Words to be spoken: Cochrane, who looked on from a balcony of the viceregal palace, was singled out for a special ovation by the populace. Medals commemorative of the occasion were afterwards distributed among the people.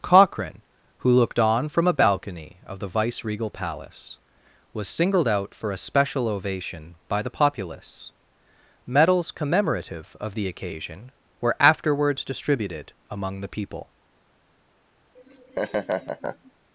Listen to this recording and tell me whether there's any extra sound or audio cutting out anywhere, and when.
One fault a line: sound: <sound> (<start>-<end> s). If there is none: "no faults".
sound: laugh (15.1-16.5 s)